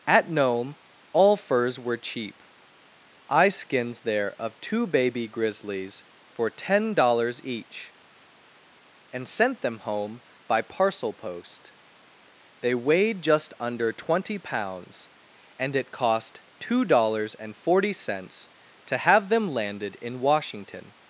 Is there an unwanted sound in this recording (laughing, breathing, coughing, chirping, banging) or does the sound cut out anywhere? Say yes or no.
no